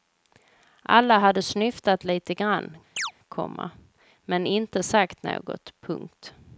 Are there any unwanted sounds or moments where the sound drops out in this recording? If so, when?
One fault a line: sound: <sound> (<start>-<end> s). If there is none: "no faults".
sound: chirp (3.0-3.1 s)